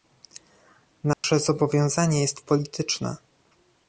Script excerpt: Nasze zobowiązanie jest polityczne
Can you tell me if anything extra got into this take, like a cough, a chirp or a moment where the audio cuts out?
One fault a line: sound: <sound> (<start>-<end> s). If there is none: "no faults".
sound: dropout (1.1-1.2 s)